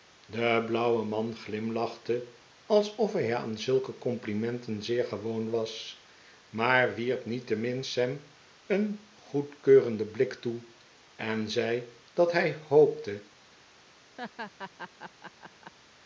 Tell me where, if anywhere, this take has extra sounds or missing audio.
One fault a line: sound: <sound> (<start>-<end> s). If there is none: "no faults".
sound: laugh (14.2-15.7 s)